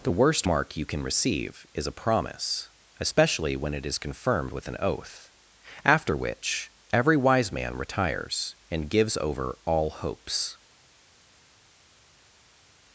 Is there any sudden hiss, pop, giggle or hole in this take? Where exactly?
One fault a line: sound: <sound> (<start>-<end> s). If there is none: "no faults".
no faults